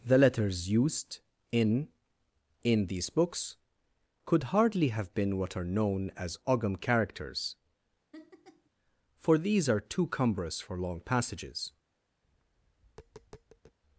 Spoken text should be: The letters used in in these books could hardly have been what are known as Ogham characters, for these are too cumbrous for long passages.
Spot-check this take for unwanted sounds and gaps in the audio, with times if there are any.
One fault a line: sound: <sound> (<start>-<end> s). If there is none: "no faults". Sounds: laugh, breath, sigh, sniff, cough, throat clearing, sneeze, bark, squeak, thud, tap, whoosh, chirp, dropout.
sound: laugh (8.1-8.7 s)
sound: tap (12.2-13.8 s)